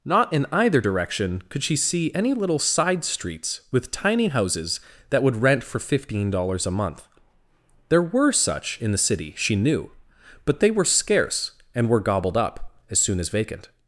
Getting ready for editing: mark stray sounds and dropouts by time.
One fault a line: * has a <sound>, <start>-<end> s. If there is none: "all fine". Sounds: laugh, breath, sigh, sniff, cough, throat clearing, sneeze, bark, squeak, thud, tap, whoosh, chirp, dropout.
all fine